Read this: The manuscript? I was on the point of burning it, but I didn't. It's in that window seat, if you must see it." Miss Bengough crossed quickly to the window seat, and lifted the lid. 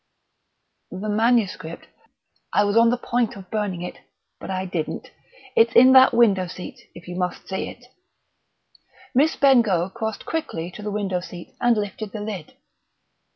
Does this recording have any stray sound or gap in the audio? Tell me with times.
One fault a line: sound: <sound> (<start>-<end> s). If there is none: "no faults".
no faults